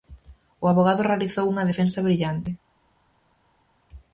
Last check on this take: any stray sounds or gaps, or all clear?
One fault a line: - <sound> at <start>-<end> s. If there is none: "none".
none